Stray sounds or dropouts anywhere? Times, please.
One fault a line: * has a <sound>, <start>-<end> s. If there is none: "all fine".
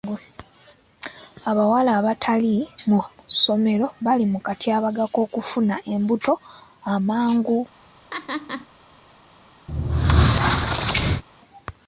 * has a laugh, 8.1-8.7 s
* has a squeak, 9.7-11.2 s